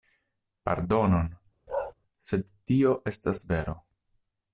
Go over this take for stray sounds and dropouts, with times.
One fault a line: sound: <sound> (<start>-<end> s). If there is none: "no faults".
sound: bark (1.7-1.9 s)